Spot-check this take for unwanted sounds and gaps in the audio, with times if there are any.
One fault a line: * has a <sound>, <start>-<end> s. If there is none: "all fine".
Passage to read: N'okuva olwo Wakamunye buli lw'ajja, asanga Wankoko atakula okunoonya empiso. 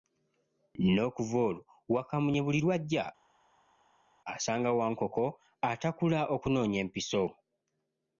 all fine